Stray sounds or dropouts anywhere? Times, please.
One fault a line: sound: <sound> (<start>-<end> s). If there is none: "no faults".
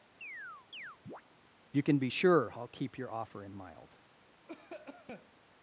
sound: chirp (0.2-1.2 s)
sound: cough (4.5-5.3 s)